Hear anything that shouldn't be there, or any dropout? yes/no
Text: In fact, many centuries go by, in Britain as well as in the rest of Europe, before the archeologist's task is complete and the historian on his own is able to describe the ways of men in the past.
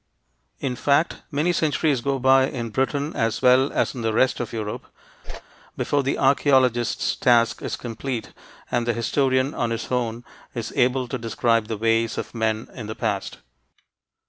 yes